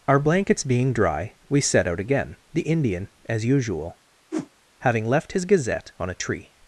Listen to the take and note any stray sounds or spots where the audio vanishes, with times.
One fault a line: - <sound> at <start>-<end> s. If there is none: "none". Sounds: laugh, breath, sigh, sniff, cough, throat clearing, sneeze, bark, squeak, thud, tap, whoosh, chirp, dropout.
- whoosh at 4.3-4.5 s